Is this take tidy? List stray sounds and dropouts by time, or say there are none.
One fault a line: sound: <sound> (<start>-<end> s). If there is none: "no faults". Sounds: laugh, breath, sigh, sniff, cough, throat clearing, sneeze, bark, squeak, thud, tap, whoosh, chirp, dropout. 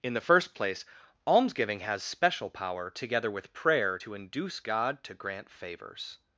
no faults